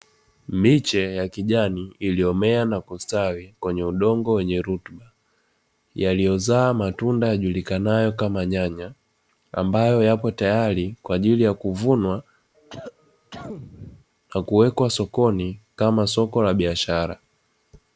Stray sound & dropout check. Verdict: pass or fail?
fail